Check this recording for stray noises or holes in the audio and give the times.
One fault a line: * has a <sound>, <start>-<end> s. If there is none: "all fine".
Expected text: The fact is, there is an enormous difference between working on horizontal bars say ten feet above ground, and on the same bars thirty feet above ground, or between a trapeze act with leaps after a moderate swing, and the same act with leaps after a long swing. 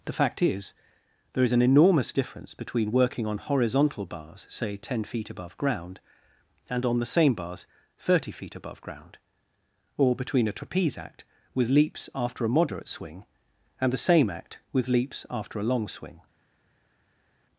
all fine